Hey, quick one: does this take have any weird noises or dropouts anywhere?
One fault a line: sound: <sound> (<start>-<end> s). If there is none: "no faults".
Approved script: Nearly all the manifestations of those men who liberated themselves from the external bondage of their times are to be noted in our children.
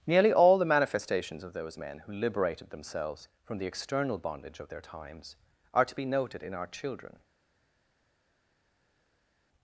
no faults